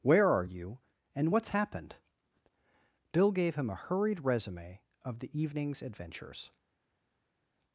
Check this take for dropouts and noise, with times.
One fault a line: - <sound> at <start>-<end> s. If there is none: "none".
none